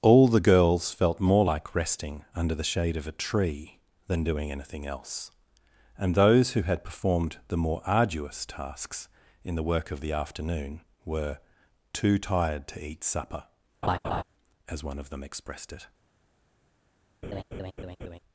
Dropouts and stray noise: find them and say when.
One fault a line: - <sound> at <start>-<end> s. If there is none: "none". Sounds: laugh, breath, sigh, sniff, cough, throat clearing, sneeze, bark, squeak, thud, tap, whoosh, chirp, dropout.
- laugh at 13.8-14.2 s
- laugh at 17.2-18.2 s